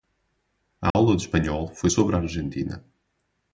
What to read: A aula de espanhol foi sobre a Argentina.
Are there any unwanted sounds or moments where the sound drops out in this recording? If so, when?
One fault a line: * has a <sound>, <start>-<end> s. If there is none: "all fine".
* has a dropout, 0.9-0.9 s